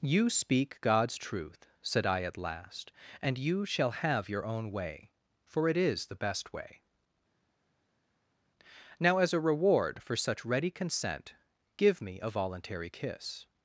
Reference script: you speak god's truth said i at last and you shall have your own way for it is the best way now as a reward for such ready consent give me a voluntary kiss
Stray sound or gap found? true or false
false